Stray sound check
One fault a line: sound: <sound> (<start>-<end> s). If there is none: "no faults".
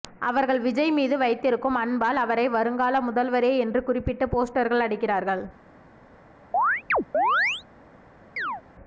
sound: chirp (6.5-7.6 s)
sound: chirp (8.4-8.6 s)